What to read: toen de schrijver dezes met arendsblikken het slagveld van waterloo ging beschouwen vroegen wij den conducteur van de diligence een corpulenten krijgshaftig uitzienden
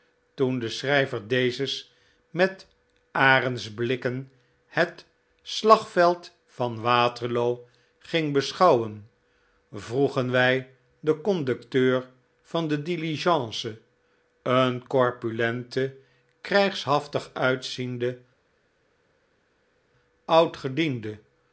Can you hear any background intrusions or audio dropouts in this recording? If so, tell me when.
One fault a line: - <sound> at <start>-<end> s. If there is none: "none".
none